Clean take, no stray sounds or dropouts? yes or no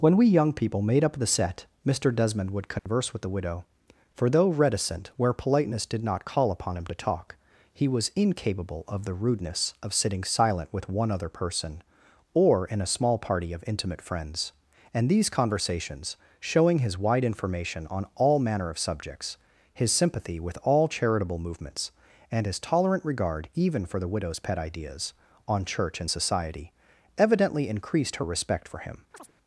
no